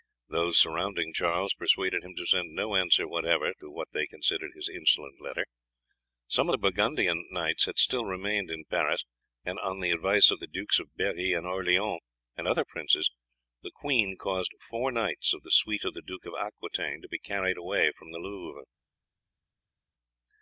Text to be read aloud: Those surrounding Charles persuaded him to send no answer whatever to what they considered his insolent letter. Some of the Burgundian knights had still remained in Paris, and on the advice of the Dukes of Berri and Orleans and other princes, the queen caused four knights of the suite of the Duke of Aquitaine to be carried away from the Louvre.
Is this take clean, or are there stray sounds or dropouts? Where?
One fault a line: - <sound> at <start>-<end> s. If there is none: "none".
none